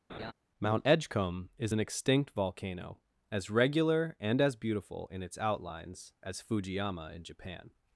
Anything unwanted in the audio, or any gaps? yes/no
yes